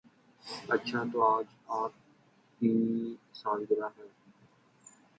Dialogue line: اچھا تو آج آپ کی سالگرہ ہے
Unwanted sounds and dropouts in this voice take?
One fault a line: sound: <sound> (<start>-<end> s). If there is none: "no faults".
no faults